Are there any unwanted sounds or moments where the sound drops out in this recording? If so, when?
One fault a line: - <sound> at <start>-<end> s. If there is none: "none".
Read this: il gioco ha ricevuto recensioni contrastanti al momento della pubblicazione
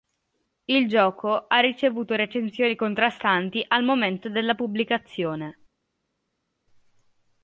none